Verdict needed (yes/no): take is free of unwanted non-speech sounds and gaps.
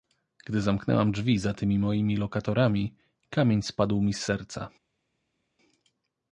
yes